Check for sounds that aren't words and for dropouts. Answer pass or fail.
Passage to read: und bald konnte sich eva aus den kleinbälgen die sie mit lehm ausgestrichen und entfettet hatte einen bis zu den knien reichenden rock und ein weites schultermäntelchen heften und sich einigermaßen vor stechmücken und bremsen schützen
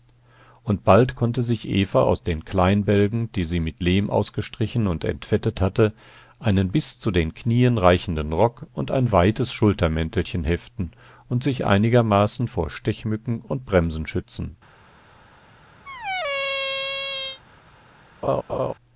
fail